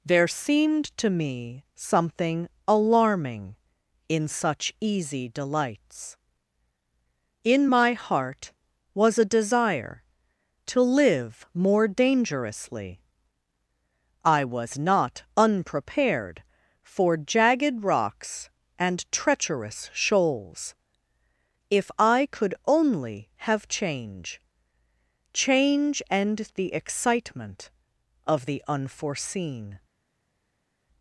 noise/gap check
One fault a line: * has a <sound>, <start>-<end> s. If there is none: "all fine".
all fine